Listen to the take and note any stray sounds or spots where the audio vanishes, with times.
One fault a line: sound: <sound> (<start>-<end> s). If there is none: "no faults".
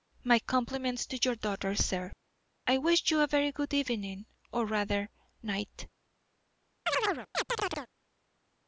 sound: chirp (6.9-7.9 s)